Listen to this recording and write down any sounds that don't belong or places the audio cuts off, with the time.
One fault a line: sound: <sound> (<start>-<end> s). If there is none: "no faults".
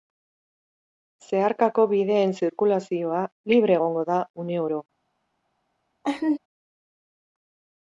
sound: laugh (6.0-6.4 s)